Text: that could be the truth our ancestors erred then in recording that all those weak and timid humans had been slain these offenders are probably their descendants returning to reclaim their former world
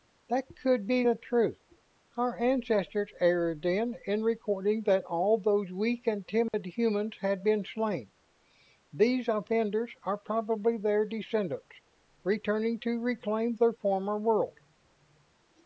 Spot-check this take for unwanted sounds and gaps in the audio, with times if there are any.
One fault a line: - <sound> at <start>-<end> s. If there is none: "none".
- dropout at 6.5-6.5 s